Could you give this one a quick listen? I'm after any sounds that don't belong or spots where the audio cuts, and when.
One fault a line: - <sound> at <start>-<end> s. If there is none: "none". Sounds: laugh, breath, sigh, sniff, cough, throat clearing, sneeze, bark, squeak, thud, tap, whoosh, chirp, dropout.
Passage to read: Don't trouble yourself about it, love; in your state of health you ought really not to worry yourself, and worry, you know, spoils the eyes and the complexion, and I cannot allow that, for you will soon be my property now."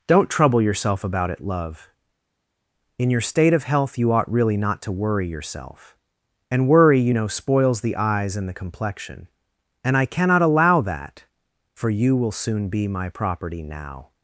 none